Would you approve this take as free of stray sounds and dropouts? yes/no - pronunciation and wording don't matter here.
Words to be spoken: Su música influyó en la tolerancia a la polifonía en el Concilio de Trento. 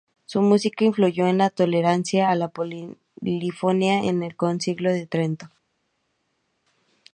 yes